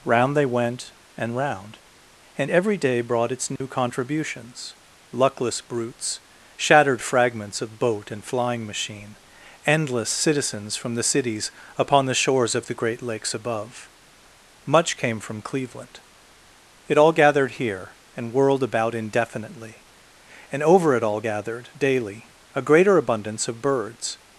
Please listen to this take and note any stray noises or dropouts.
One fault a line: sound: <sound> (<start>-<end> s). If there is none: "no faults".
sound: dropout (3.6-3.6 s)